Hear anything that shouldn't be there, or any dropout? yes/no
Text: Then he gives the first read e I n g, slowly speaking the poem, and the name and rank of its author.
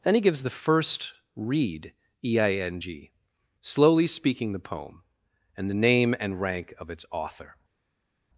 no